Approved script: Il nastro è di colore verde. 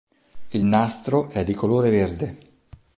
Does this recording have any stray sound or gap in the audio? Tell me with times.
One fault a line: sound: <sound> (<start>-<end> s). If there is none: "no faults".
no faults